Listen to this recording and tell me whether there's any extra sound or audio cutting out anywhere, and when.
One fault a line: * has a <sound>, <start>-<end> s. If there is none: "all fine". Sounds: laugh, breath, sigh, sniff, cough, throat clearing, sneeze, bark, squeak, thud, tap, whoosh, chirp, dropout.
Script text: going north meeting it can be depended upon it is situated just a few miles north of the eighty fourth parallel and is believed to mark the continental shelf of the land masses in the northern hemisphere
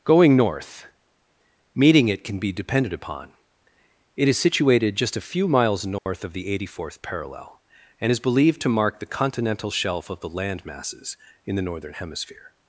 * has a dropout, 6.0-6.1 s